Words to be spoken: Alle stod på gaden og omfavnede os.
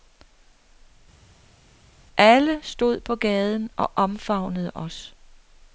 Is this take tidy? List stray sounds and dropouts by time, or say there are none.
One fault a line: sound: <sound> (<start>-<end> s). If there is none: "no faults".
no faults